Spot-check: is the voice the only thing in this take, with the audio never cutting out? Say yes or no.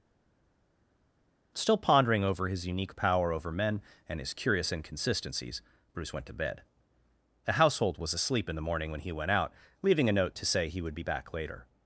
yes